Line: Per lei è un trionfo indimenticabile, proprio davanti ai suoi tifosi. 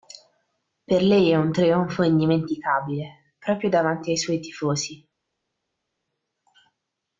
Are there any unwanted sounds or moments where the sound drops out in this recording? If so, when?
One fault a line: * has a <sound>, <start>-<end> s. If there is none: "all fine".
all fine